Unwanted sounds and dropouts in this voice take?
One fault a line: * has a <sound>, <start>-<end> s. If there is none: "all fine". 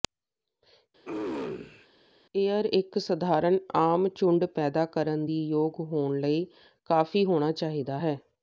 * has a throat clearing, 1.0-1.9 s